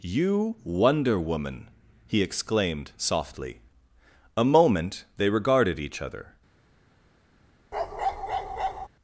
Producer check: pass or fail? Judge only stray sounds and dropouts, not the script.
fail